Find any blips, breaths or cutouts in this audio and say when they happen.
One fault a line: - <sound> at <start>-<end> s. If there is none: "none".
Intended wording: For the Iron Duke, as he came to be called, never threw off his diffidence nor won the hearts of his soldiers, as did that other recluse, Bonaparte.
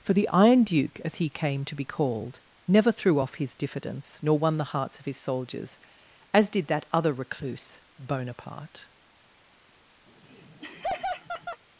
- laugh at 10.1-11.6 s